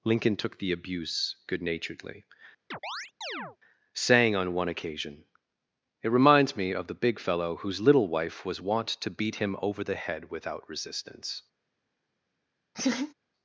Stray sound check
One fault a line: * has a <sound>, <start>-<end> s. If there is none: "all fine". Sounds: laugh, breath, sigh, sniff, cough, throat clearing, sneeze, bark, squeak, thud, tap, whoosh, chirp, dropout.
* has a chirp, 2.7-3.6 s
* has a laugh, 12.7-13.1 s